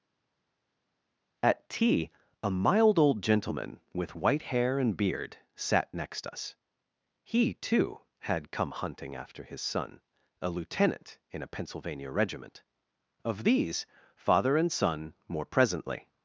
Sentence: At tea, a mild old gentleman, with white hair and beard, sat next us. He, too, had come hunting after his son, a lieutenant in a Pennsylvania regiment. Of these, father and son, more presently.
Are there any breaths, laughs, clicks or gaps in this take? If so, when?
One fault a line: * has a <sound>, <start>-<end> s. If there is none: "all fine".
all fine